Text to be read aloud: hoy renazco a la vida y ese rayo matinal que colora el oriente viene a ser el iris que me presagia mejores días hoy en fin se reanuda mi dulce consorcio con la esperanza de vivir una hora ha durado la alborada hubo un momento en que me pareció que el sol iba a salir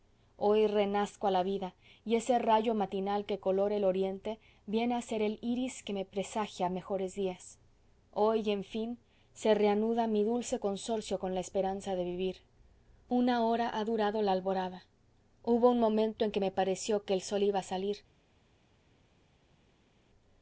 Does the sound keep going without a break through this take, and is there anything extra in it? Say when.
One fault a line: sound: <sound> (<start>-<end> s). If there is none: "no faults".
no faults